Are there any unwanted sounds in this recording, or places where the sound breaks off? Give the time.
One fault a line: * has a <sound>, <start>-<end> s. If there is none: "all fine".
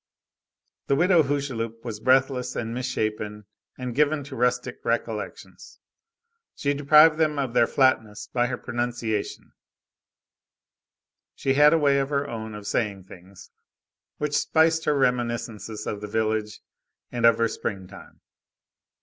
all fine